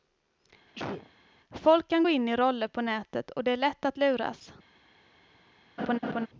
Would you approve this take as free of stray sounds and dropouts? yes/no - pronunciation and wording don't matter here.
no